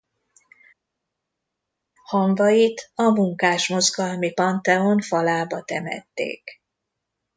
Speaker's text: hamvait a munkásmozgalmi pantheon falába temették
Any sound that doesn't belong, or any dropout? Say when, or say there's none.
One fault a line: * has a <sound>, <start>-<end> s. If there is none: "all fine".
all fine